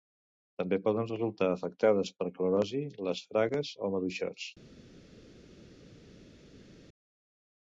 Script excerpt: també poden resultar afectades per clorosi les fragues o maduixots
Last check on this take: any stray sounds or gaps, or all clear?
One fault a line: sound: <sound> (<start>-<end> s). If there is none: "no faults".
no faults